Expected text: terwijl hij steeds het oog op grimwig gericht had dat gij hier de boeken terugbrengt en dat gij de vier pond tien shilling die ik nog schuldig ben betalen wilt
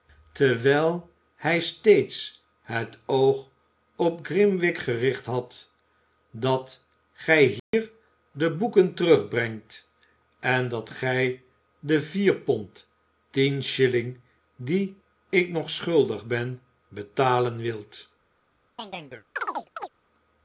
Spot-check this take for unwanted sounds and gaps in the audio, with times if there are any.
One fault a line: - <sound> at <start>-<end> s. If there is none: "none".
- dropout at 7.6-7.7 s
- chirp at 18.8-19.9 s